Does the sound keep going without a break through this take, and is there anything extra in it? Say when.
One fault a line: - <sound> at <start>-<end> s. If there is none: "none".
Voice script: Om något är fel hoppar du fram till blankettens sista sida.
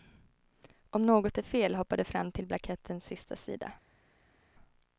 none